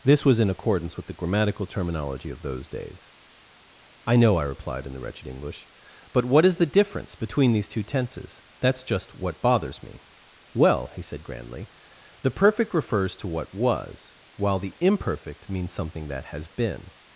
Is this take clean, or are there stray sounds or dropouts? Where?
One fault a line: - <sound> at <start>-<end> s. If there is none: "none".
none